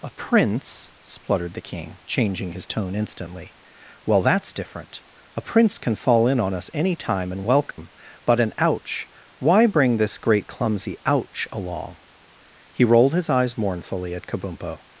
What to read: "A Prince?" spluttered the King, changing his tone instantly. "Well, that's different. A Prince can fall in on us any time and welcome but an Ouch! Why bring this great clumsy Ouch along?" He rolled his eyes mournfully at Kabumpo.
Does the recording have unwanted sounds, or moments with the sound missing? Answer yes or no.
yes